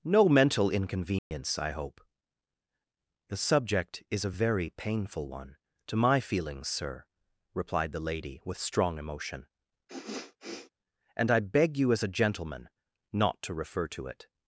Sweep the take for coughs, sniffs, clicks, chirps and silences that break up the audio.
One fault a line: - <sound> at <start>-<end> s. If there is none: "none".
- dropout at 1.2-1.3 s
- sniff at 9.9-10.7 s